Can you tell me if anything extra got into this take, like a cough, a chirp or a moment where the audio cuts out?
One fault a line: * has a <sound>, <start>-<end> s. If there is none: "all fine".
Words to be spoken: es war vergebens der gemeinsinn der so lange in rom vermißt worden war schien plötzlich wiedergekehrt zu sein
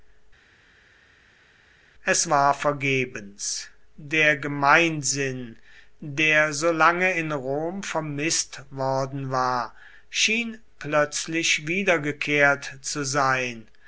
all fine